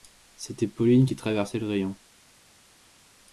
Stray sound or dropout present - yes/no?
no